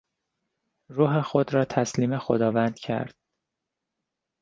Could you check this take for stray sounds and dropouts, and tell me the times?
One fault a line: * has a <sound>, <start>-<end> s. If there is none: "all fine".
all fine